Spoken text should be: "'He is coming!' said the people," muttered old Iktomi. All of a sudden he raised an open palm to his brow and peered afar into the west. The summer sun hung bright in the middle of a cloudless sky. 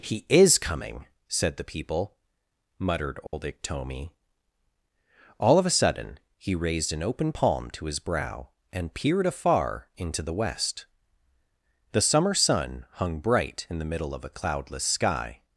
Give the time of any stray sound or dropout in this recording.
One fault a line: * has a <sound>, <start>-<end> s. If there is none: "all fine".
* has a dropout, 3.3-3.3 s